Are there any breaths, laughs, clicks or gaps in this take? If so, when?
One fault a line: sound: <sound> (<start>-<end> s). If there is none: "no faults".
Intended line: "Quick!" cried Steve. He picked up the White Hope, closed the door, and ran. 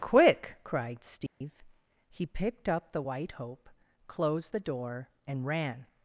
sound: dropout (1.3-1.4 s)